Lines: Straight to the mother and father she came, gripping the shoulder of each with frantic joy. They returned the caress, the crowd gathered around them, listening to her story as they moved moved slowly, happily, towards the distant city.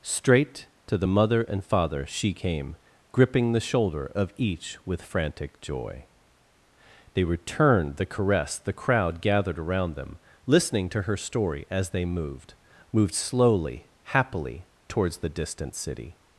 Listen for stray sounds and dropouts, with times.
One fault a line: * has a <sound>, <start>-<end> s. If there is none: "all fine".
all fine